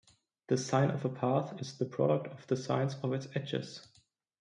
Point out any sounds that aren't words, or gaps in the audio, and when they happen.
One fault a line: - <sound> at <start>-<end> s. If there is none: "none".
none